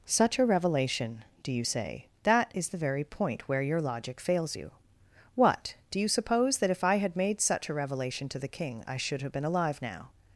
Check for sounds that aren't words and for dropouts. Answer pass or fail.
pass